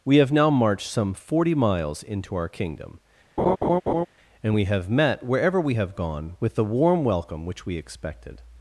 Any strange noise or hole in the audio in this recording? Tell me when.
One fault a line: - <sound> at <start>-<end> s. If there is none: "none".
- laugh at 3.4-4.1 s